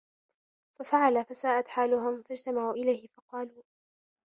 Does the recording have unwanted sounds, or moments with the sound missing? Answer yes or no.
no